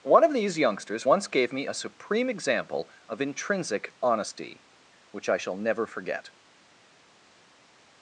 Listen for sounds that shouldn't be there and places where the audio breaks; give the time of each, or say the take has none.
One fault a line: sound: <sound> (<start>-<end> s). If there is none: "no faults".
no faults